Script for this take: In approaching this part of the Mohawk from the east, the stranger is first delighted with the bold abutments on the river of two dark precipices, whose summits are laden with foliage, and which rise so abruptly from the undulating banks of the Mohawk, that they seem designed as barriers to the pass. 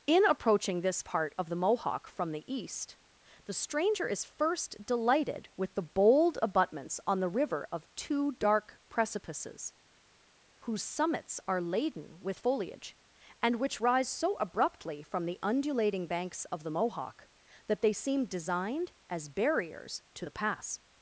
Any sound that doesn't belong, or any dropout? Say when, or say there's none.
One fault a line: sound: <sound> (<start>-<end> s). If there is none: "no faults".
no faults